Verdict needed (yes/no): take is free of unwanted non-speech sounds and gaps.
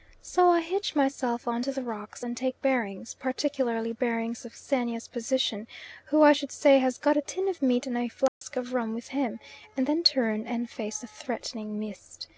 no